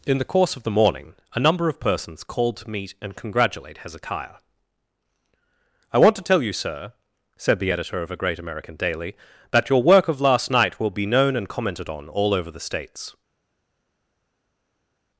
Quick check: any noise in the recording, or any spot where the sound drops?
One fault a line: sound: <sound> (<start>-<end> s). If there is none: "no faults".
no faults